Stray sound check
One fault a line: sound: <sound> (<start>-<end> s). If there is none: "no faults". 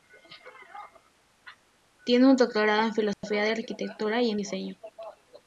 sound: dropout (3.1-3.2 s)